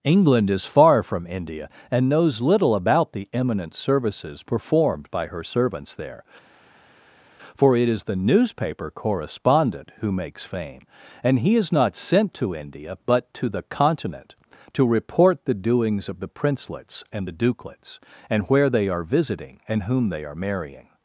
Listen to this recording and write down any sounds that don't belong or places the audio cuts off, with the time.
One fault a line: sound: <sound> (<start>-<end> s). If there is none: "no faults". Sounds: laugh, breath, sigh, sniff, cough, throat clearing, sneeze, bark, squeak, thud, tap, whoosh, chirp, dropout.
no faults